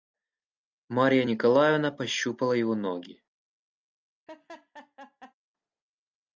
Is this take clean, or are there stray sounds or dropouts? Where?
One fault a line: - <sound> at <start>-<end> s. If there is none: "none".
- laugh at 4.3-5.3 s